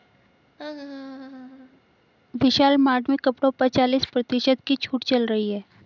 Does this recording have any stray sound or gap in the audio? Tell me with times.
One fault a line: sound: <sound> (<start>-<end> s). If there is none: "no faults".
sound: laugh (0.6-1.8 s)